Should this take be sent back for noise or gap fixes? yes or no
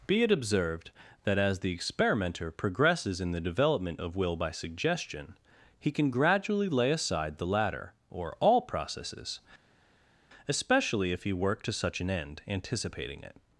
no